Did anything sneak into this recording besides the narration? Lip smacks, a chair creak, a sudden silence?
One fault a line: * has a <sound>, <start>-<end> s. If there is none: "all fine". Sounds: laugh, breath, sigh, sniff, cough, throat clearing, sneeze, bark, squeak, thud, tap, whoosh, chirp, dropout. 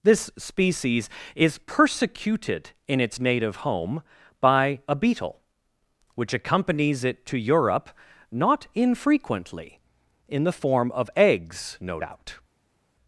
all fine